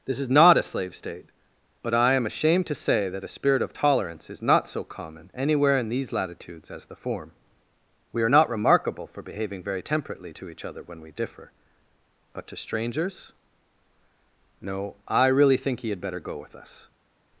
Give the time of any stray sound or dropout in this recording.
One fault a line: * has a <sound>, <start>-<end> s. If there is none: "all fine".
all fine